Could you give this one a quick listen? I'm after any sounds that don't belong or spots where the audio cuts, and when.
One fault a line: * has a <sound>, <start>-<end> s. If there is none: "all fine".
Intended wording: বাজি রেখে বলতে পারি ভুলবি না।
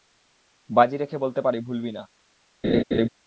* has a laugh, 2.6-3.1 s